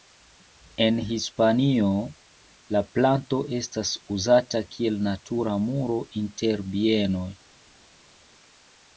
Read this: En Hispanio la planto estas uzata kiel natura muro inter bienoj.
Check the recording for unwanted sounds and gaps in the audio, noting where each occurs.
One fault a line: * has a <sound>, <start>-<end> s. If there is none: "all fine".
all fine